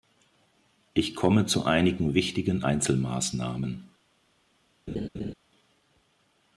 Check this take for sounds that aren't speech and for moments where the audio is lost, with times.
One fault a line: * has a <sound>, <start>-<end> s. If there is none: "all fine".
* has a laugh, 4.9-5.3 s